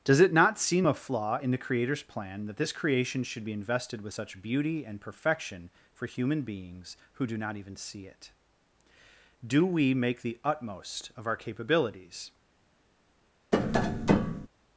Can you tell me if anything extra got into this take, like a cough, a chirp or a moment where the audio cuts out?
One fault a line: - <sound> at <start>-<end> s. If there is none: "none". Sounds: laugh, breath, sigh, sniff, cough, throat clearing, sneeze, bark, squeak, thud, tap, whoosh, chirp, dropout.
- tap at 13.5-14.5 s